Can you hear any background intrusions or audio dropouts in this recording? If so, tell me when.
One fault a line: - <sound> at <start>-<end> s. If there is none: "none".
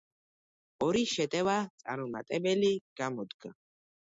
none